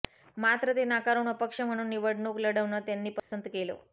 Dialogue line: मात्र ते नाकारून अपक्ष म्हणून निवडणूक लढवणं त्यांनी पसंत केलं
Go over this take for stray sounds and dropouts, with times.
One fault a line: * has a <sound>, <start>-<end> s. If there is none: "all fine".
* has a dropout, 3.2-3.3 s